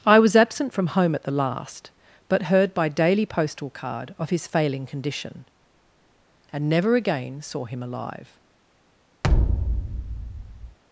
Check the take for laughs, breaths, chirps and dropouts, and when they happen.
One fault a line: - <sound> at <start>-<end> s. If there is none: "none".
- thud at 9.2-10.8 s